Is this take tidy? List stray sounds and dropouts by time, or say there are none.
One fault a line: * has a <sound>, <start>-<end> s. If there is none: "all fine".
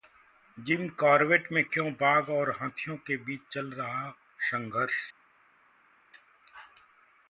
all fine